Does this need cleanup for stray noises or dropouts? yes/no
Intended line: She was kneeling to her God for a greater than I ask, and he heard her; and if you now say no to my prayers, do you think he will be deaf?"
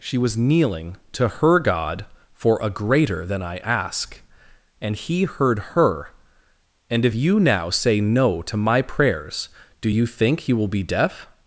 no